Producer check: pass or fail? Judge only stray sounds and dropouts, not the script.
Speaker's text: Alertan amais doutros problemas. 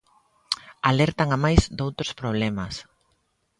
pass